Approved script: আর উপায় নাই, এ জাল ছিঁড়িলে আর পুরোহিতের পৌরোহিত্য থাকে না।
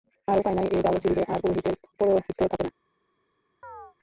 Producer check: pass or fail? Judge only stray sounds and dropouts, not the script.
fail